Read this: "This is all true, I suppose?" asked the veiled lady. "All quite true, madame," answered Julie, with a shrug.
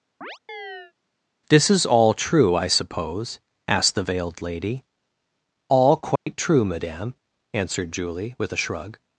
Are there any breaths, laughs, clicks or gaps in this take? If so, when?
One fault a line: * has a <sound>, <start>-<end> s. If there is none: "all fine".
* has a chirp, 0.2-0.9 s
* has a dropout, 6.2-6.3 s